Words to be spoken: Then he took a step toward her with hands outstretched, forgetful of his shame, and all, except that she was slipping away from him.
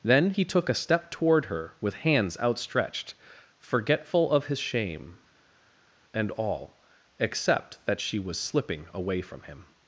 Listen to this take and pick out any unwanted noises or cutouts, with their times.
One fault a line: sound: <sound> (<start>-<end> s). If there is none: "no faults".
no faults